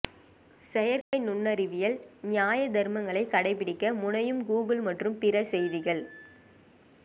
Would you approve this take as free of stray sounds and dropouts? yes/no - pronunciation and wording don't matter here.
no